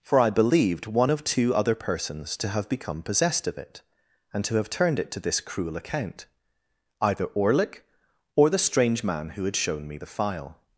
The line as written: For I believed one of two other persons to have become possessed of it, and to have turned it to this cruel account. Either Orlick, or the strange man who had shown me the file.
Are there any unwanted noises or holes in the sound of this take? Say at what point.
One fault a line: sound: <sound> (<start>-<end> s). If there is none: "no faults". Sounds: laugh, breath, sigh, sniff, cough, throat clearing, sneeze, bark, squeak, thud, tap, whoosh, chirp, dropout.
no faults